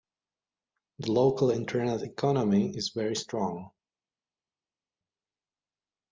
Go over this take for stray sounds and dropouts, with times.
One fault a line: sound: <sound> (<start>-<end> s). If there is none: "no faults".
no faults